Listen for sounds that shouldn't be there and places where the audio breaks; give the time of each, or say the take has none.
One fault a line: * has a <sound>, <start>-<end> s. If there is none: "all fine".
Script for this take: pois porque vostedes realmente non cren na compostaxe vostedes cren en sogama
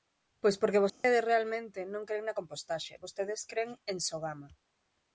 * has a dropout, 0.9-1.0 s